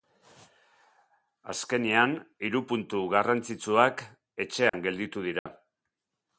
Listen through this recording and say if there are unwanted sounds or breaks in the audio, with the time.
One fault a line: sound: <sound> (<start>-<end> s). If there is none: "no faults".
sound: dropout (4.7-4.7 s)
sound: dropout (5.4-5.5 s)